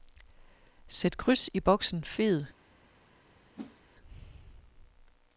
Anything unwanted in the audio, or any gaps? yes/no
yes